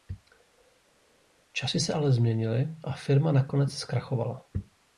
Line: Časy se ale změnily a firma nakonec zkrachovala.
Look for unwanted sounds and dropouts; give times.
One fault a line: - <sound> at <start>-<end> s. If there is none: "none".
none